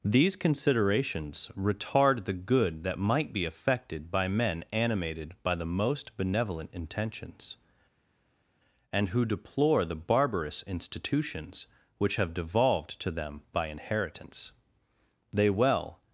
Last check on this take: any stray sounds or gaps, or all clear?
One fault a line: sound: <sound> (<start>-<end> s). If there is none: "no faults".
no faults